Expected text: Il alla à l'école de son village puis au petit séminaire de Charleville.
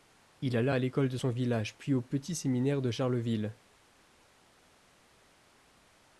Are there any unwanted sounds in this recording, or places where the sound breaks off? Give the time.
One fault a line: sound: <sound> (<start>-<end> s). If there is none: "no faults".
no faults